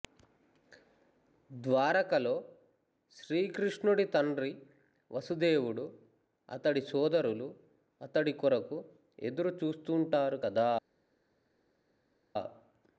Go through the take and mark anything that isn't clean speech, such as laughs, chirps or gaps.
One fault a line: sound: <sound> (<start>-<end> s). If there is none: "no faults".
no faults